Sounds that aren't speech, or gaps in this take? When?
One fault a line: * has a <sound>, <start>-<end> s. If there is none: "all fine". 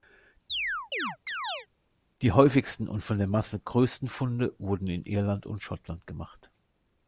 * has a chirp, 0.5-1.7 s